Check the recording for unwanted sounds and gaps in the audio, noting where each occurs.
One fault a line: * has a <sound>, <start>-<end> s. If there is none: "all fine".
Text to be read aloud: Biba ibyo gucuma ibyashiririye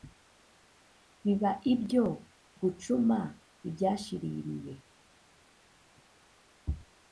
all fine